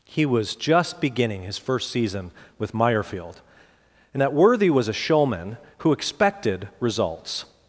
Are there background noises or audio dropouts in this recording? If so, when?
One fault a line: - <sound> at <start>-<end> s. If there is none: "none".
none